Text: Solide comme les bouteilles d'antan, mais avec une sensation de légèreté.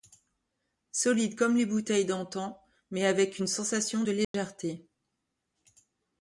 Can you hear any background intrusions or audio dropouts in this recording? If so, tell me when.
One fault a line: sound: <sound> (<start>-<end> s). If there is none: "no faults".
sound: dropout (4.2-4.3 s)